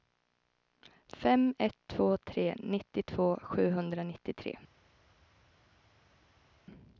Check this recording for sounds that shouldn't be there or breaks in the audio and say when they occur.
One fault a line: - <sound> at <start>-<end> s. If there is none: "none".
none